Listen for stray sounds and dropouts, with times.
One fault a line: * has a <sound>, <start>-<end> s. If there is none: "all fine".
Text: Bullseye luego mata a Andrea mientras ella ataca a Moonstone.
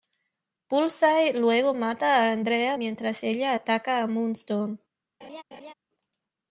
* has a laugh, 5.2-5.7 s